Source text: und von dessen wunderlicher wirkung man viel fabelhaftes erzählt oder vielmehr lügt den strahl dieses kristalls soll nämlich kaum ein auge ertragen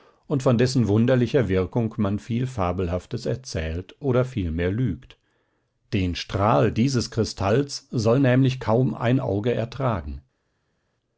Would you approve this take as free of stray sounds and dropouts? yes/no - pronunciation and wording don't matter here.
yes